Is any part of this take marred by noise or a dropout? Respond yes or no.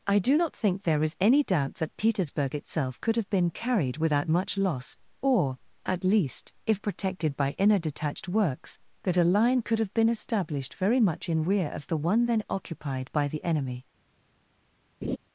yes